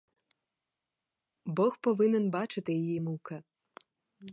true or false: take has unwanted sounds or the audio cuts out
false